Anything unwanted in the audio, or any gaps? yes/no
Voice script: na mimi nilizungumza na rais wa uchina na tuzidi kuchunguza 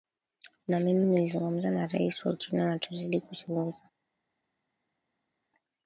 no